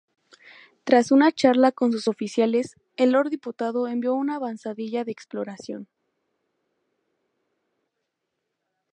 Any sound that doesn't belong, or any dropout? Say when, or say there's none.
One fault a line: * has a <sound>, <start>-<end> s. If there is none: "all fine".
all fine